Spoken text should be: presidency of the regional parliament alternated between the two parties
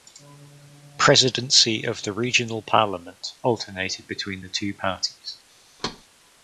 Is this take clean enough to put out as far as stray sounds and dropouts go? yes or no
no